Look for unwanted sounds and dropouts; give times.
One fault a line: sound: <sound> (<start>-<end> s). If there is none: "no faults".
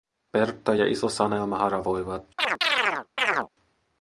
sound: chirp (2.4-3.5 s)